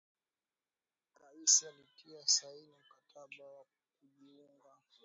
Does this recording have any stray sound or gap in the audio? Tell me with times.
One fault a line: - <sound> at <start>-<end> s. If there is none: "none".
none